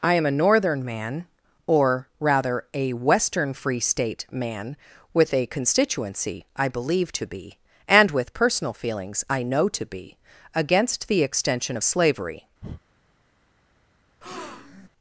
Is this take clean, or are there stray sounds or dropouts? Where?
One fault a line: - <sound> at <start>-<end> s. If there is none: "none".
- breath at 12.6-12.8 s
- breath at 14.2-14.9 s